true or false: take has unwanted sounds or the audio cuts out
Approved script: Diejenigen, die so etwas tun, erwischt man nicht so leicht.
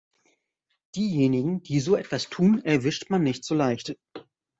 false